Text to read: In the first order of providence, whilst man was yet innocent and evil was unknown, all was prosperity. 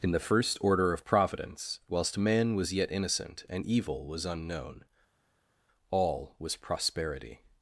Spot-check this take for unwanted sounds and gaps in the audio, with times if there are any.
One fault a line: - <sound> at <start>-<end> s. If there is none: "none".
none